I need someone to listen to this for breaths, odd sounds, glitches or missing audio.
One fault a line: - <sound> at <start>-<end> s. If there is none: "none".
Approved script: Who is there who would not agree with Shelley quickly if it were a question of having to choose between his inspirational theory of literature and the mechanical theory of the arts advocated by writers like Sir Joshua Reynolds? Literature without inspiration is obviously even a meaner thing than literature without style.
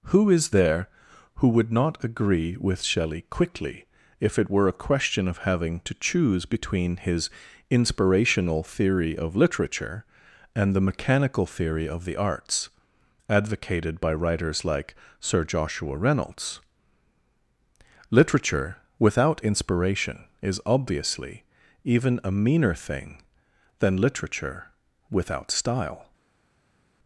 none